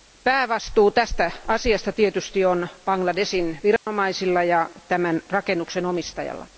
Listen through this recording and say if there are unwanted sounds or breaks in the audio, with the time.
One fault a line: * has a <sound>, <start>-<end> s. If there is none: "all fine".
* has a dropout, 3.8-3.9 s